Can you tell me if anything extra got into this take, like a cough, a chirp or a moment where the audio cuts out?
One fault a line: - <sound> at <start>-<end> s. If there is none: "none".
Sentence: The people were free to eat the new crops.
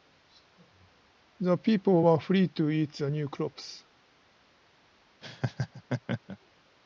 - laugh at 5.2-6.4 s